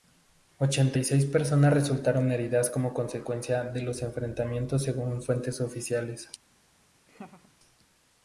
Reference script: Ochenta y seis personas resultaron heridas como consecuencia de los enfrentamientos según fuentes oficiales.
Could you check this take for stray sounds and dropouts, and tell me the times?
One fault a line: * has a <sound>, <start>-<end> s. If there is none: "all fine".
* has a laugh, 7.1-7.6 s